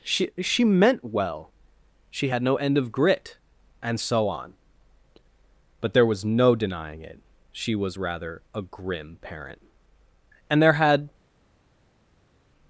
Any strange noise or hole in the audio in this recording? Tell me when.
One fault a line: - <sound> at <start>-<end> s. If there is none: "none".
none